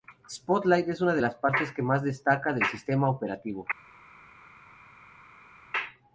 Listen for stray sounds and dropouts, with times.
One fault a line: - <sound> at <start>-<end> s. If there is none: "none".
none